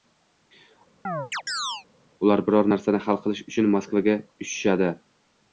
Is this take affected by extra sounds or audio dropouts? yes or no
yes